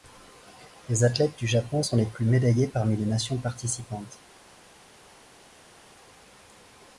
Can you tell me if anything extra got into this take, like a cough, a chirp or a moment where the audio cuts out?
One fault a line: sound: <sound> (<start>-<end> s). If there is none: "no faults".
no faults